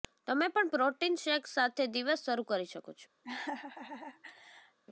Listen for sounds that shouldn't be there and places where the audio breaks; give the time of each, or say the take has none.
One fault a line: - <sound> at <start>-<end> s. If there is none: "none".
- laugh at 3.2-4.8 s